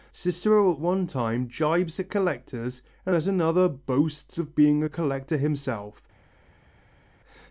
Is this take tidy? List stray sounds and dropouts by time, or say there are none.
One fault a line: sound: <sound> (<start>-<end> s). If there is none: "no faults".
no faults